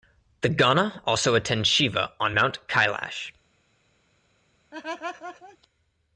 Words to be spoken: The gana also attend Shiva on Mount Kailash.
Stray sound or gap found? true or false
true